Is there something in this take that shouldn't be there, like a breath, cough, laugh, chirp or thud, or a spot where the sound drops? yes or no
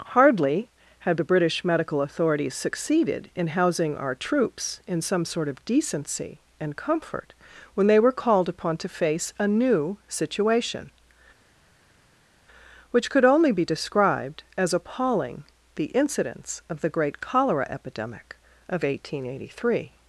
no